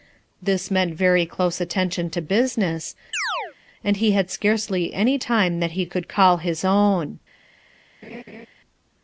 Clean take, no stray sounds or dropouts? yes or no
no